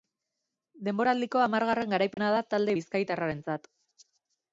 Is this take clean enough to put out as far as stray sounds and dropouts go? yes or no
no